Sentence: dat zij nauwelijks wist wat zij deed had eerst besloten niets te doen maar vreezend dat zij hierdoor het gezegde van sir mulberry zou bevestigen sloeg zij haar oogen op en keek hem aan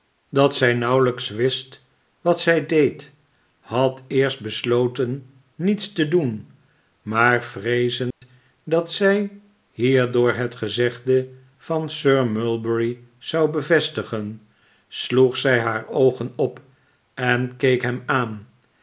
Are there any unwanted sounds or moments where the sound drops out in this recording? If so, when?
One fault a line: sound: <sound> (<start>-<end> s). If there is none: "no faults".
sound: dropout (8.1-8.2 s)